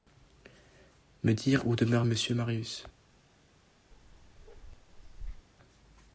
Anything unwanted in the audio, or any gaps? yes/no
yes